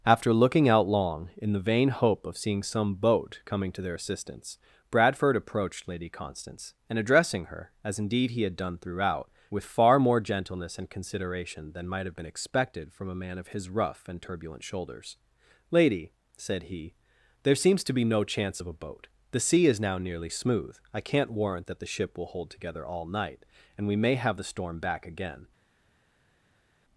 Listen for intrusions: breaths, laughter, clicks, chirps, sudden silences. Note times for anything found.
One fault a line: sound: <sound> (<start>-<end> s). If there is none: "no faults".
no faults